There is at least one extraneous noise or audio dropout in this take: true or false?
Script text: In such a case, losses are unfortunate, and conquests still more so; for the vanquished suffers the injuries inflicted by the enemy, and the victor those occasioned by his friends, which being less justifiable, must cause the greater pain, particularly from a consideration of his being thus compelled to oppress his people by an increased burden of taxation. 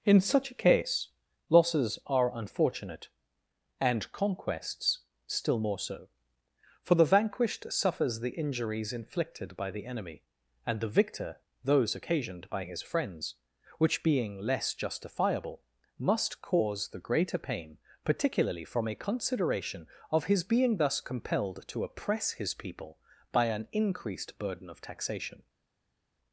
false